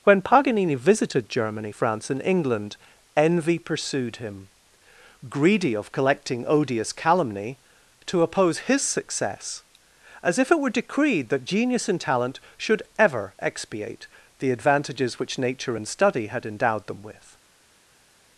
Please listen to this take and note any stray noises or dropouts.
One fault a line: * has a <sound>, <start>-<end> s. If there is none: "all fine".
all fine